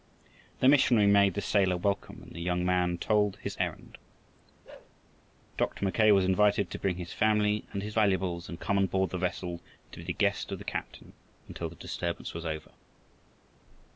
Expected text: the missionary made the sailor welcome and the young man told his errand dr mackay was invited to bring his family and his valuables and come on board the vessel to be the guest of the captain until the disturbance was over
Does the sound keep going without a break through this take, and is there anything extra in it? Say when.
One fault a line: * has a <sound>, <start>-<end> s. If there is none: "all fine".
* has a bark, 4.6-4.9 s